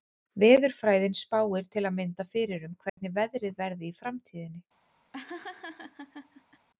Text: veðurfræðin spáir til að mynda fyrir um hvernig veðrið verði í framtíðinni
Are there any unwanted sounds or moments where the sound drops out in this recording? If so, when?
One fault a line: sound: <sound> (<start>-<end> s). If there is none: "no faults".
sound: dropout (2.9-3.0 s)
sound: laugh (5.1-6.7 s)